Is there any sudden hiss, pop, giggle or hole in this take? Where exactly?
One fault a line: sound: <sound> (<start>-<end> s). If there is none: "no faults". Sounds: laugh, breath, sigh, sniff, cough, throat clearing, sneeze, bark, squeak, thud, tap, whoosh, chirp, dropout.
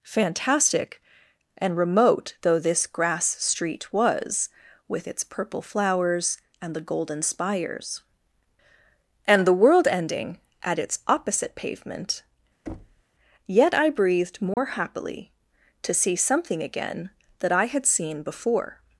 sound: thud (12.7-13.0 s)
sound: dropout (14.5-14.6 s)